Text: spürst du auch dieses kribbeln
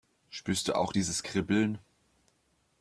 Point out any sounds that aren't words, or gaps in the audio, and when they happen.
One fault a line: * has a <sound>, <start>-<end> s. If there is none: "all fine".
all fine